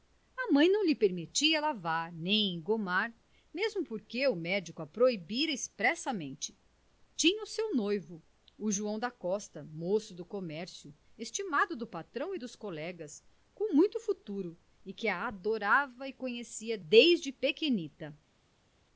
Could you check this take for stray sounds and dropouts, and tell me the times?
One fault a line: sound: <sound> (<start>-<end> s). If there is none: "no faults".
no faults